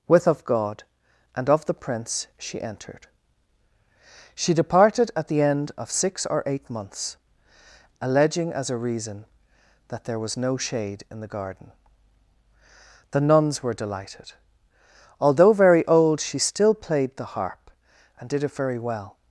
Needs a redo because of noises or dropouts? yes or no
no